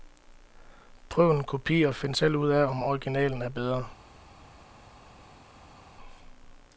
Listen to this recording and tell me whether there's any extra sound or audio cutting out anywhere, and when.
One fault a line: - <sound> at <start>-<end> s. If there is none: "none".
none